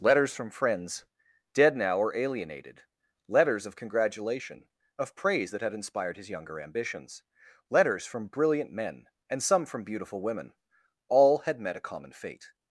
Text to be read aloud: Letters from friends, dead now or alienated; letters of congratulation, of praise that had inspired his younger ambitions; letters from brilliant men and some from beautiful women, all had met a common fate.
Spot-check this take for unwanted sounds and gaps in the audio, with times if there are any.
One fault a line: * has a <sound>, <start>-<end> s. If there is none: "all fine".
all fine